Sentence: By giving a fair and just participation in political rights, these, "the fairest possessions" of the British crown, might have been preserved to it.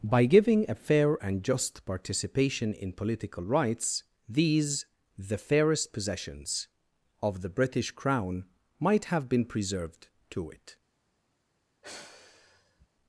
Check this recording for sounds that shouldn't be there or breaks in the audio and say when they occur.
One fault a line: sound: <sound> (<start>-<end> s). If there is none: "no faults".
sound: sigh (11.8-12.9 s)